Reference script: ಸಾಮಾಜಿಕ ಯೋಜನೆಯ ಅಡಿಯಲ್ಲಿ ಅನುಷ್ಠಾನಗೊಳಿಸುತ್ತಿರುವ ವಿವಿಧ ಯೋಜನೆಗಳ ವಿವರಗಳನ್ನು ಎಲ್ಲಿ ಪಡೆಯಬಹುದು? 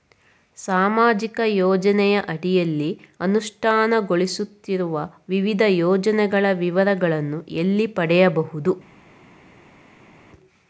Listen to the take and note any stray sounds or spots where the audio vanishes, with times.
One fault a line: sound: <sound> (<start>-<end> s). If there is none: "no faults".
no faults